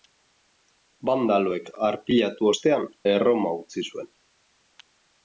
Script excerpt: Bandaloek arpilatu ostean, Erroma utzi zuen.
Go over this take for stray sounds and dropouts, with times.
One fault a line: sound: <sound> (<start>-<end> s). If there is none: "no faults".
no faults